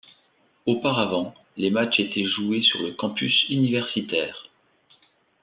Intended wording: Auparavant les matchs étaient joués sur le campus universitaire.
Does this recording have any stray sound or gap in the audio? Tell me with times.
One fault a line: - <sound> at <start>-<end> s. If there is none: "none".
none